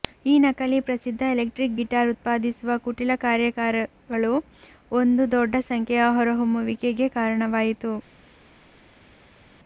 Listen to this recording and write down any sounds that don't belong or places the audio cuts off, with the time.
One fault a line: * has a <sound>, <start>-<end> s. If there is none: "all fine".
all fine